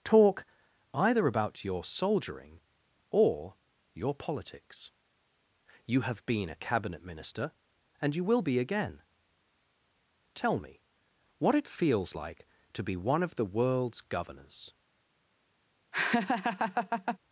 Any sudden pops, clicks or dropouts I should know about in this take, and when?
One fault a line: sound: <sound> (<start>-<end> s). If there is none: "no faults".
sound: laugh (15.9-17.2 s)